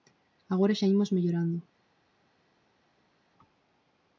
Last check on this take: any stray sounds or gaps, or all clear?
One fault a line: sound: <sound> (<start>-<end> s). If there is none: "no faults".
no faults